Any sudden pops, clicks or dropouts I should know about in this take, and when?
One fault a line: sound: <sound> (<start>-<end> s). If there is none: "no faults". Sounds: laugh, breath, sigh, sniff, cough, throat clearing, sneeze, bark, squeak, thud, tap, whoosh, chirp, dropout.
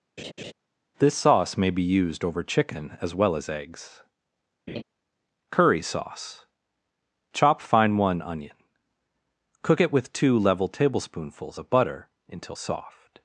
sound: laugh (0.2-0.5 s)
sound: laugh (4.7-4.8 s)